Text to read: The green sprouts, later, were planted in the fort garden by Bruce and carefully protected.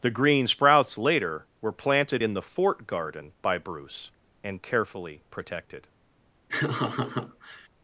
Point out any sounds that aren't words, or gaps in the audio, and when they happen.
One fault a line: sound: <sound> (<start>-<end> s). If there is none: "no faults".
sound: laugh (6.5-7.7 s)